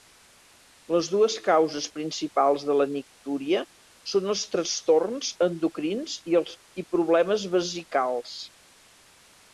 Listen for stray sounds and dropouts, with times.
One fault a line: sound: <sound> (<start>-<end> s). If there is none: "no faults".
no faults